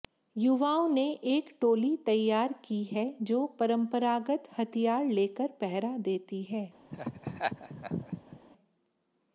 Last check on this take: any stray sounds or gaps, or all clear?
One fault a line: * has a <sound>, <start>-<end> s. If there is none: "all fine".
* has a laugh, 6.9-8.4 s